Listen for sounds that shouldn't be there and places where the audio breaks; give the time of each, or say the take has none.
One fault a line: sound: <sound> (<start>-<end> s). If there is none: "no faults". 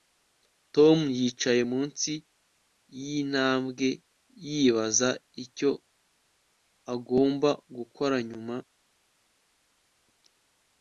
no faults